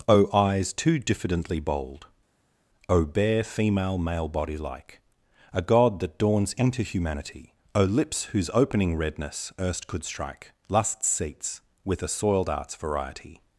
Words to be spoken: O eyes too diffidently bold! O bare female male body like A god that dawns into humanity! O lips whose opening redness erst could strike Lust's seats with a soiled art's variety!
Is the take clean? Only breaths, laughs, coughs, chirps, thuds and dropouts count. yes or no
yes